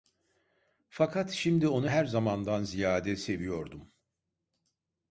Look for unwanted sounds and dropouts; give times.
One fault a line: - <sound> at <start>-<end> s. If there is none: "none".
none